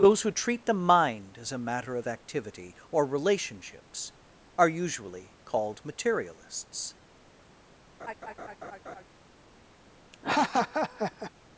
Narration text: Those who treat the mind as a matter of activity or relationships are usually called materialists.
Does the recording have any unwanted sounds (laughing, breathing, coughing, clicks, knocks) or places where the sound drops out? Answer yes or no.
yes